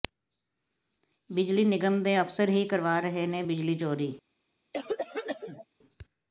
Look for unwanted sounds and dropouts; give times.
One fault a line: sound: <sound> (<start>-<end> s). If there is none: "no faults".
sound: cough (4.7-5.6 s)